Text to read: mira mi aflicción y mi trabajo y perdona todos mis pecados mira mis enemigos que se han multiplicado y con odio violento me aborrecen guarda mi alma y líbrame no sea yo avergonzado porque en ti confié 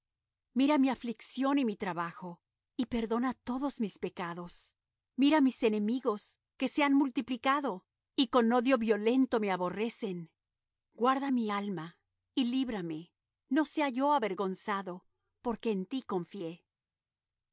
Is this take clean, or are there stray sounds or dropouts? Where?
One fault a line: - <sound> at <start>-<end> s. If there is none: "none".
none